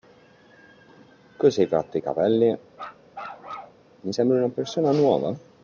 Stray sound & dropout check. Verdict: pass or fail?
fail